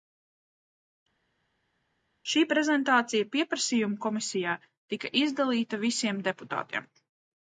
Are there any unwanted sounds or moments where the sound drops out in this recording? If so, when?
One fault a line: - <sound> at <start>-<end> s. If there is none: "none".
none